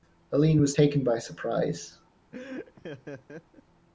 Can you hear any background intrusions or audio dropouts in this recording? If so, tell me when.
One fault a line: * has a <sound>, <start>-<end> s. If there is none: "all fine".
* has a laugh, 2.3-3.6 s